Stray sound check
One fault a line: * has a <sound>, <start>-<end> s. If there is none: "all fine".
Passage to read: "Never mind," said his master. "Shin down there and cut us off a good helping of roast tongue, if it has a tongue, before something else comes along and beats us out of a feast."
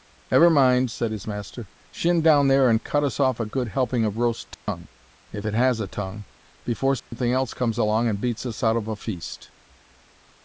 * has a dropout, 4.5-4.7 s
* has a dropout, 7.0-7.1 s